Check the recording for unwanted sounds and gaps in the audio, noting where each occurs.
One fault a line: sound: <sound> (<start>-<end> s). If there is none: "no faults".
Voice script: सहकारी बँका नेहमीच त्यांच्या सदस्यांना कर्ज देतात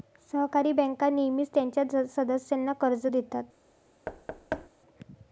sound: thud (4.1-4.7 s)